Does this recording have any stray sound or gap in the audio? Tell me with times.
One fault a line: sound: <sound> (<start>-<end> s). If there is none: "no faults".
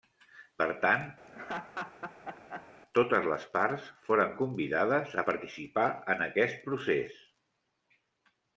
sound: laugh (1.3-2.7 s)